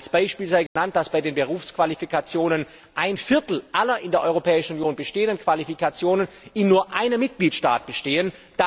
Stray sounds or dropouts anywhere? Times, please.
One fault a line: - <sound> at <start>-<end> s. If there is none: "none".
- dropout at 0.7-0.8 s